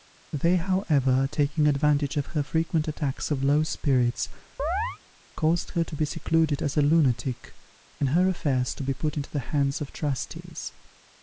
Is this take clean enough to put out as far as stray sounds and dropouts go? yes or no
no